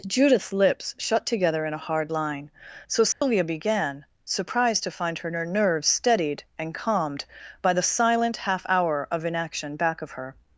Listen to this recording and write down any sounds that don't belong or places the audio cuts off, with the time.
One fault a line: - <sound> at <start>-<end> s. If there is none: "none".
- dropout at 3.1-3.2 s